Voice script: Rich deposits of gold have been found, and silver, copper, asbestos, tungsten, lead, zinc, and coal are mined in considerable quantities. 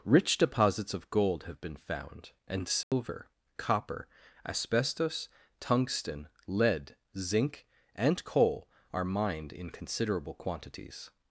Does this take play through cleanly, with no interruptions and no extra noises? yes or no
no